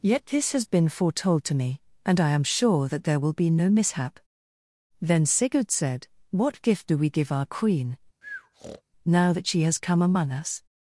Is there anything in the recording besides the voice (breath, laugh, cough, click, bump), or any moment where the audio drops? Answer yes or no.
yes